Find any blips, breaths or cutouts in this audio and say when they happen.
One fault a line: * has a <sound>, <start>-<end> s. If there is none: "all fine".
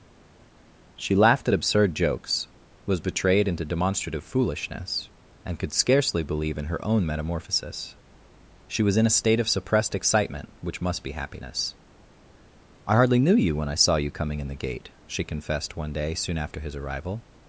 all fine